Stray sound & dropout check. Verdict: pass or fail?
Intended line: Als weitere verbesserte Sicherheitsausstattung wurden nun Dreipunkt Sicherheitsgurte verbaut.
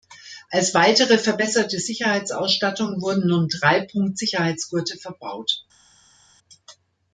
pass